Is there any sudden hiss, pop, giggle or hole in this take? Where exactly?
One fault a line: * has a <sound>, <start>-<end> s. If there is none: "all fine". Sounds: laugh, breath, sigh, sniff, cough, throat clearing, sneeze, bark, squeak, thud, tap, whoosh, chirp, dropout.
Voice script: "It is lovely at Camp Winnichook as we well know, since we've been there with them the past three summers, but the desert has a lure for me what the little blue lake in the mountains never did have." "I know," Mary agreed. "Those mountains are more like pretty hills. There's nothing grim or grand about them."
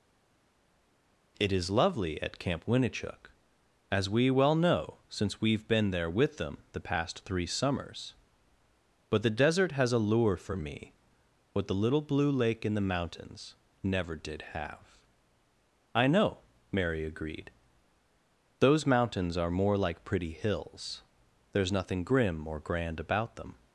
all fine